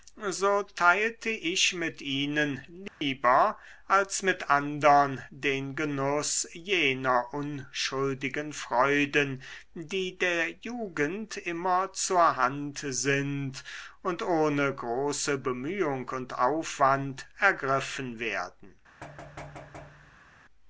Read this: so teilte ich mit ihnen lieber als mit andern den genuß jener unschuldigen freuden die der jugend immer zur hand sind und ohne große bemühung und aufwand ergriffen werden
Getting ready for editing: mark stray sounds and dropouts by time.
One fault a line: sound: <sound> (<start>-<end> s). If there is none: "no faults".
sound: dropout (2.9-3.0 s)
sound: thud (19.0-20.4 s)